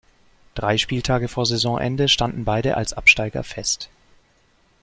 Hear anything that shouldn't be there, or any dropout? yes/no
no